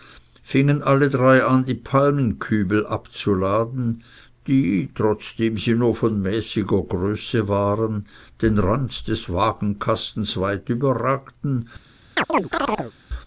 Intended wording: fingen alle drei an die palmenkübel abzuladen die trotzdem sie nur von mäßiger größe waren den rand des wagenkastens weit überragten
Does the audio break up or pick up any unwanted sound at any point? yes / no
yes